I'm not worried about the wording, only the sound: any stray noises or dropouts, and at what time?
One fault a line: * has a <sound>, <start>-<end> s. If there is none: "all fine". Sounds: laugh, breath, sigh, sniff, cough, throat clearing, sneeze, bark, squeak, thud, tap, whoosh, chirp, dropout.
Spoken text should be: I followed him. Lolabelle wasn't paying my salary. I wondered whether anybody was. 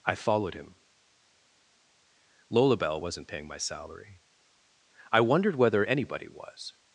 all fine